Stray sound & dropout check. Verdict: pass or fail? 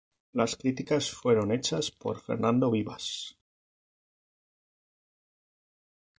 pass